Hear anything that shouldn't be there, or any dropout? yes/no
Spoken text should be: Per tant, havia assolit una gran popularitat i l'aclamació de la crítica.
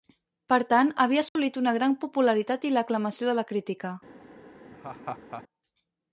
yes